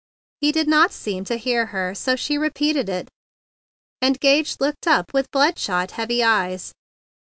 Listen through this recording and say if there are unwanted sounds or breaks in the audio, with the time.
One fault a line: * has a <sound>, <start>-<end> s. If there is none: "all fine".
all fine